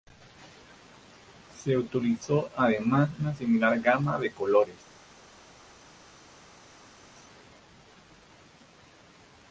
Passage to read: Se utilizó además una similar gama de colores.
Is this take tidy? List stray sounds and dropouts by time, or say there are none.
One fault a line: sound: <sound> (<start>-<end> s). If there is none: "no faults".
no faults